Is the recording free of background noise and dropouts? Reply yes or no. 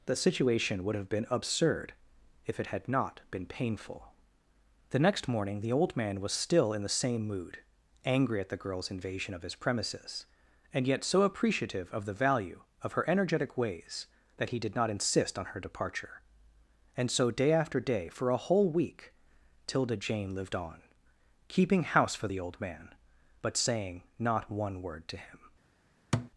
no